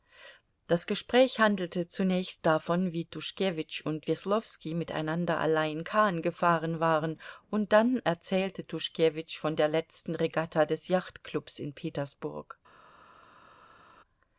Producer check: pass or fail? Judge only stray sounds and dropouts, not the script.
pass